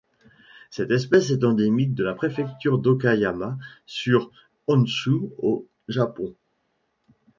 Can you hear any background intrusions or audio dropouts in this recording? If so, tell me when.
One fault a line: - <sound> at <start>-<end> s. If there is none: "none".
none